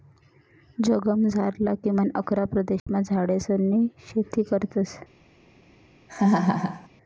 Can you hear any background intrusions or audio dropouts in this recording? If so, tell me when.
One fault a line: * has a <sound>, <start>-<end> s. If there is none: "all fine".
* has a dropout, 2.8-2.9 s
* has a laugh, 6.1-6.9 s